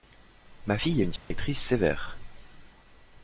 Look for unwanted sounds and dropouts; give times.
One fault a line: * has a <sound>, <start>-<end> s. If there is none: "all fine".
* has a dropout, 1.2-1.3 s